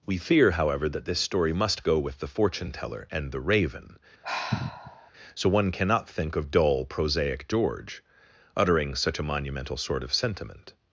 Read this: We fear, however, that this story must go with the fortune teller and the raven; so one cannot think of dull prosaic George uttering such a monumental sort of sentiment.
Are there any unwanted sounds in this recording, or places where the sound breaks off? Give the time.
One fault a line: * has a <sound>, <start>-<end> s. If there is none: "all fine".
* has a sigh, 4.2-5.1 s